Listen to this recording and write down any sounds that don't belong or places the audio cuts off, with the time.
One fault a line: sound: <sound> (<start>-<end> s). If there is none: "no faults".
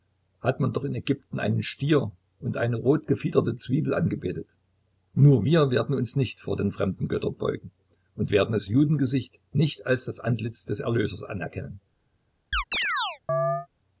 sound: chirp (12.5-13.7 s)